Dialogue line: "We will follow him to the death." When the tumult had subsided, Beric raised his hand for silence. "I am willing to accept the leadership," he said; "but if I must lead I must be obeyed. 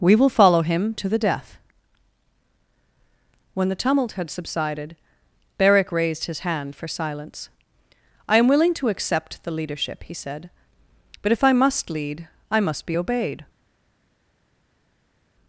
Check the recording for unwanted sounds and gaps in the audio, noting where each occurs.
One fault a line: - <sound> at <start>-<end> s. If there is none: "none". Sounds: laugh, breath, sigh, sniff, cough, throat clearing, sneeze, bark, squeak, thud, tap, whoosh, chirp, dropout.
none